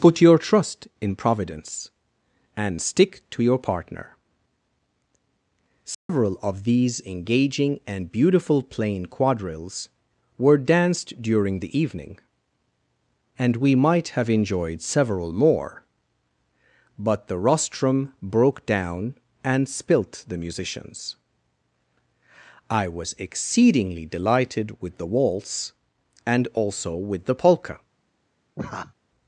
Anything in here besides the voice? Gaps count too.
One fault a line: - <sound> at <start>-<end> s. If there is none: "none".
- dropout at 5.9-6.1 s
- laugh at 28.6-28.9 s